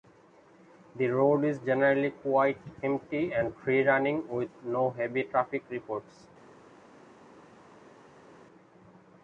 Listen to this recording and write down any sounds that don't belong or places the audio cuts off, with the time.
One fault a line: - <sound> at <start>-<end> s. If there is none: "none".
none